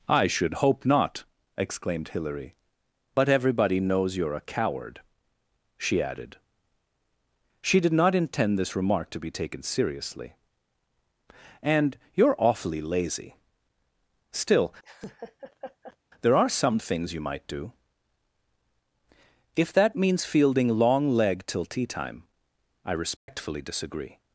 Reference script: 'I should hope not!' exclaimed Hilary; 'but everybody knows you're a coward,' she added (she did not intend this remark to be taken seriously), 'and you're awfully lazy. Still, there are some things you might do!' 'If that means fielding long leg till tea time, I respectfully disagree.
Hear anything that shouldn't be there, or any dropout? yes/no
yes